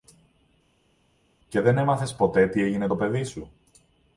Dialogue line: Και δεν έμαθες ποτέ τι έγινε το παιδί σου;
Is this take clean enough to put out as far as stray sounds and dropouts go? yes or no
yes